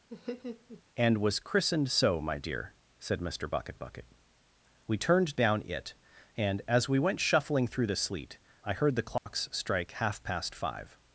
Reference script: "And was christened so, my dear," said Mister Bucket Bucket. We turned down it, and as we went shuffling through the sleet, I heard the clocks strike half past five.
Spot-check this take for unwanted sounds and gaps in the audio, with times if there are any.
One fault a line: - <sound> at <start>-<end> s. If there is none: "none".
- laugh at 0.1-0.8 s
- dropout at 9.2-9.3 s